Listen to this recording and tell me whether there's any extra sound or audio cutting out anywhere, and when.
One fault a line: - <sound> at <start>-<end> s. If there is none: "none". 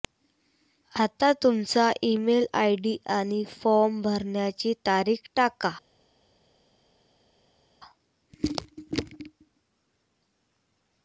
none